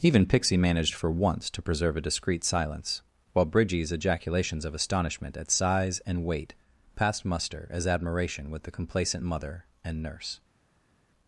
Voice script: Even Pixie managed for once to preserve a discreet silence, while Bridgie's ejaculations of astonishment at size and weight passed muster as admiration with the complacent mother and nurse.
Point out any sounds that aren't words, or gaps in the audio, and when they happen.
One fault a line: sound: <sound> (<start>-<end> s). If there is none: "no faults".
no faults